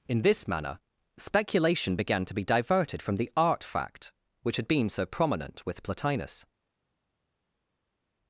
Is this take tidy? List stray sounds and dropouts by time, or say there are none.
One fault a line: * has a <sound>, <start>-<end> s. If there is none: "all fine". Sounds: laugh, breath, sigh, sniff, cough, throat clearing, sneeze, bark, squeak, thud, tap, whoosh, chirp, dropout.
all fine